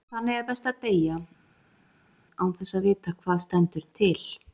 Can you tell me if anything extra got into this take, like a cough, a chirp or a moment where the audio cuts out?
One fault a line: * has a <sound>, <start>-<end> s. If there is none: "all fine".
all fine